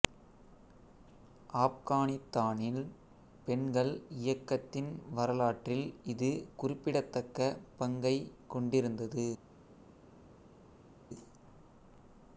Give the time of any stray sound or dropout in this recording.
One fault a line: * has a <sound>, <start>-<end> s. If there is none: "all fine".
all fine